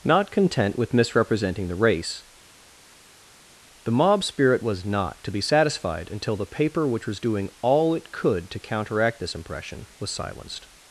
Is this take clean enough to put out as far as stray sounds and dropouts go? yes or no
yes